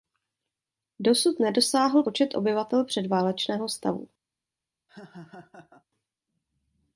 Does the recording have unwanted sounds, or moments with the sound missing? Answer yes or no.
yes